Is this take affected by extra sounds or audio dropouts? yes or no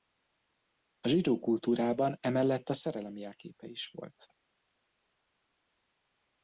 no